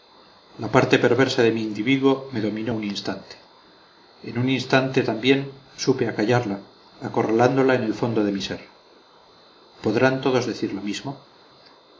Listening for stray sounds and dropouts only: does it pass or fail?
pass